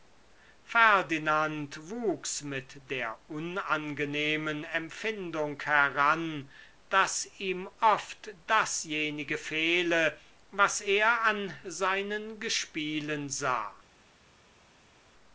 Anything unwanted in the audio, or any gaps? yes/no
no